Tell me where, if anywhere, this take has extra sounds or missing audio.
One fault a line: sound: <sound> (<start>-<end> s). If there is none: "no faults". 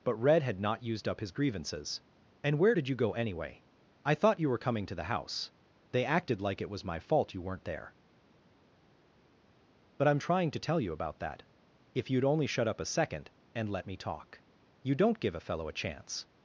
no faults